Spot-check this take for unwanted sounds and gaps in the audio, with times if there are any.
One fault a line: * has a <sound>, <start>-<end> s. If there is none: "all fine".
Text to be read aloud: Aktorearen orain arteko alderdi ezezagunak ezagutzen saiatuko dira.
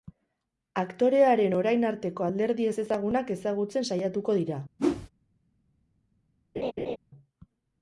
* has a whoosh, 4.8-5.1 s
* has a laugh, 6.6-7.0 s